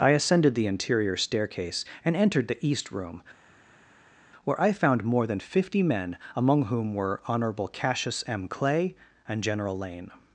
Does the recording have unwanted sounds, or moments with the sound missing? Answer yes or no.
no